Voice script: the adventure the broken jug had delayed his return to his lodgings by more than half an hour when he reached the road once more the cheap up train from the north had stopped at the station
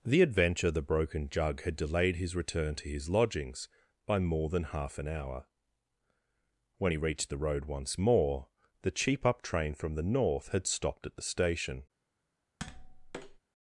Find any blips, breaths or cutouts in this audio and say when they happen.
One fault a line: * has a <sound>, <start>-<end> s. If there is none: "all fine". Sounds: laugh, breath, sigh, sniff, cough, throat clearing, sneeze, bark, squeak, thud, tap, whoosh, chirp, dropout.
* has a tap, 12.6-13.4 s